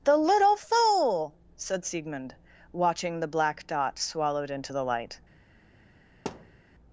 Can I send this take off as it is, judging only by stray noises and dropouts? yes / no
no